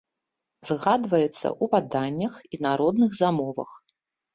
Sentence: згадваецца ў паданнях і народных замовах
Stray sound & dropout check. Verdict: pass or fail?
pass